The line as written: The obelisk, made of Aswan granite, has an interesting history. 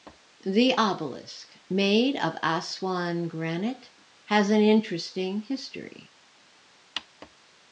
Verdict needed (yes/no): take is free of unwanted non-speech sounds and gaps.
yes